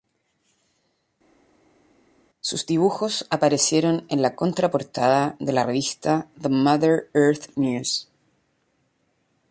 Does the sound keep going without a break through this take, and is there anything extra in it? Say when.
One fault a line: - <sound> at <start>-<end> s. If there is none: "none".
none